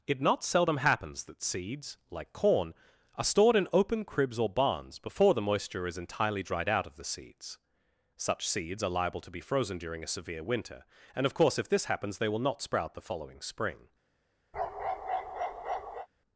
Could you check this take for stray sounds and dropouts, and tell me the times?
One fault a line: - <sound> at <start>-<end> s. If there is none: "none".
- bark at 14.5-16.1 s